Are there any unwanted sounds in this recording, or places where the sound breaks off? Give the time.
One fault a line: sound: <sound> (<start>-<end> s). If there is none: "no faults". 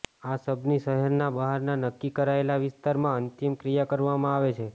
no faults